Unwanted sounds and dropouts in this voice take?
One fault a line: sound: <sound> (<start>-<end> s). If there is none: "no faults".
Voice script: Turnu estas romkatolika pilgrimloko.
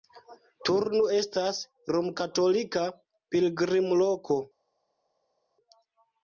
no faults